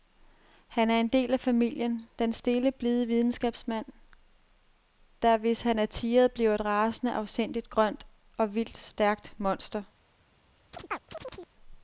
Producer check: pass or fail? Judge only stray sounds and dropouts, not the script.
fail